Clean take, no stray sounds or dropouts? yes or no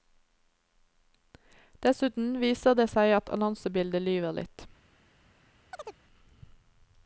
no